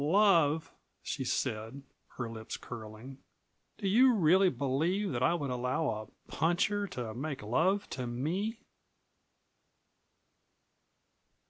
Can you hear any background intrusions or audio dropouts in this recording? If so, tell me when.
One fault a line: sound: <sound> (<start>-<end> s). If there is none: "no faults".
no faults